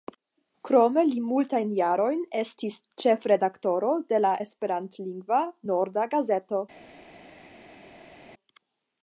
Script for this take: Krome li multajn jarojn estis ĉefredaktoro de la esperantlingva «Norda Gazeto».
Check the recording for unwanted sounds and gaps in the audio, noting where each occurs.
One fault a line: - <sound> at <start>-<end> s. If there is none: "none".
none